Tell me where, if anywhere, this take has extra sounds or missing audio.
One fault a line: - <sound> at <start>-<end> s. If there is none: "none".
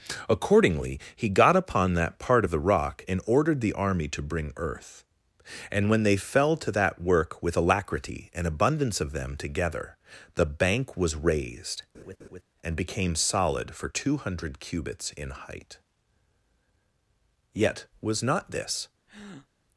- laugh at 11.9-12.4 s
- breath at 19.1-19.5 s